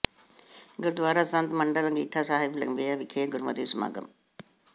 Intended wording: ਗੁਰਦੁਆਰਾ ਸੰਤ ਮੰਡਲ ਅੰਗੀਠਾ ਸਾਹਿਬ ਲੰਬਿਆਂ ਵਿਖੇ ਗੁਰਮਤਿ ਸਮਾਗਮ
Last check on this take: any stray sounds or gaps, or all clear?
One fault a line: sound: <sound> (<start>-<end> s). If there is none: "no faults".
no faults